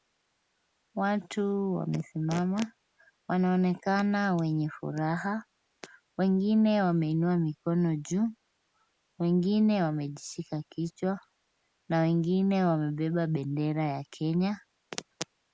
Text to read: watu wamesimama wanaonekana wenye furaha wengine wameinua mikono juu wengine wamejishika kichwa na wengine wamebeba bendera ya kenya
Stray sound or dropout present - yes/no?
no